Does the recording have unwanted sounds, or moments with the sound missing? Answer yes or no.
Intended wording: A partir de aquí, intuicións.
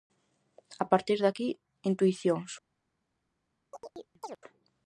yes